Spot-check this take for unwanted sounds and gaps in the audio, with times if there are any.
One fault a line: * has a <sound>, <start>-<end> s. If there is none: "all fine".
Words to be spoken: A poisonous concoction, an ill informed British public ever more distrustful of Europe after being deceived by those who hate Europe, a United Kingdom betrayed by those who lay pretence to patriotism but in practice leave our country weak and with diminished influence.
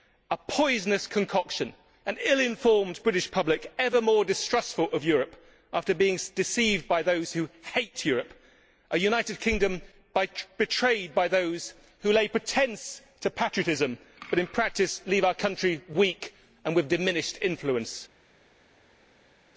all fine